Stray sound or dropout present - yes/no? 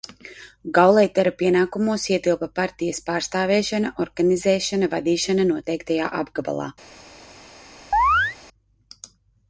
yes